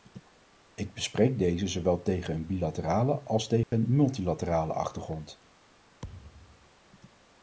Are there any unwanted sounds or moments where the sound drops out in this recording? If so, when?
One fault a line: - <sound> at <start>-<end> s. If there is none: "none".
- dropout at 3.6-3.7 s
- thud at 6.0-6.7 s